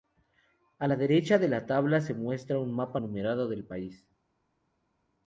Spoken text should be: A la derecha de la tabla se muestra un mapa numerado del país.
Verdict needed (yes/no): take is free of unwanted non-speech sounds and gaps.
yes